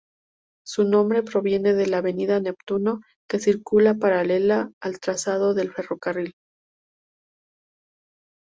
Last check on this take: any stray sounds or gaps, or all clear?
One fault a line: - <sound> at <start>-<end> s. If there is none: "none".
none